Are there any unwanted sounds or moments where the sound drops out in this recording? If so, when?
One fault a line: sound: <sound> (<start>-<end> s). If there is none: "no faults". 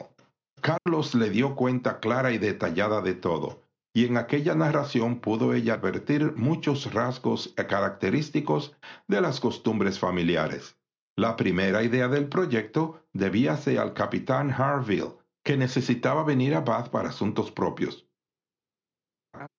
sound: dropout (0.8-0.9 s)
sound: laugh (19.3-19.5 s)